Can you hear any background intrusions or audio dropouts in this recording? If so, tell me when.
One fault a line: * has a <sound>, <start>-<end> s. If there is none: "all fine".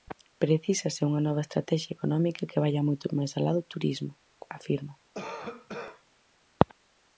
* has a cough, 5.1-6.0 s